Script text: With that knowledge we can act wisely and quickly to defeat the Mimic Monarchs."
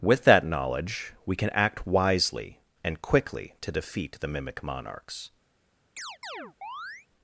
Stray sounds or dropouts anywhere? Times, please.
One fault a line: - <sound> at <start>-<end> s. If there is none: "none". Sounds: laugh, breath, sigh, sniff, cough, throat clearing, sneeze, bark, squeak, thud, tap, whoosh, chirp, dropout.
- chirp at 6.0-7.1 s